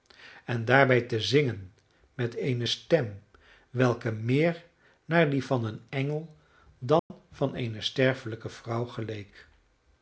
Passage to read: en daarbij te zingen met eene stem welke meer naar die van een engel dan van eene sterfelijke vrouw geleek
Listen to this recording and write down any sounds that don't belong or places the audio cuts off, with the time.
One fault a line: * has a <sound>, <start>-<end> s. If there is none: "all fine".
* has a dropout, 7.0-7.1 s